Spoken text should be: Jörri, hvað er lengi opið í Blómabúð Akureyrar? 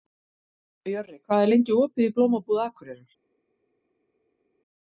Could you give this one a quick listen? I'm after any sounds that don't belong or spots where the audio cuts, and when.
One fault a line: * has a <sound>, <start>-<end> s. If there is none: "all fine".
all fine